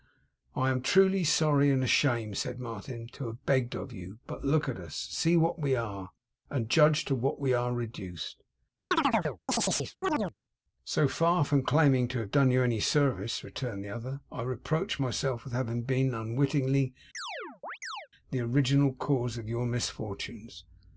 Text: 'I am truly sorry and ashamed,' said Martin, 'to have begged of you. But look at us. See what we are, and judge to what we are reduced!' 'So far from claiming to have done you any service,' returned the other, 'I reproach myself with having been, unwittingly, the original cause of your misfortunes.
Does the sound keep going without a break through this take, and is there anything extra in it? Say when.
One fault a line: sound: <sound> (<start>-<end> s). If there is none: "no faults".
sound: chirp (8.9-10.3 s)
sound: chirp (17.1-18.1 s)